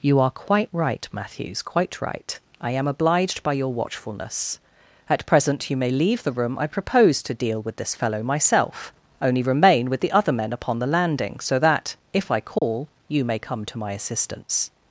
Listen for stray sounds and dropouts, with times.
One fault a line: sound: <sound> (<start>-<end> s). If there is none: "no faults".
sound: dropout (12.6-12.6 s)